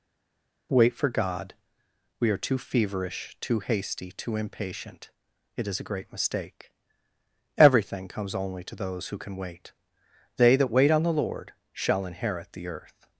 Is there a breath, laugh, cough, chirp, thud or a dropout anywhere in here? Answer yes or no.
no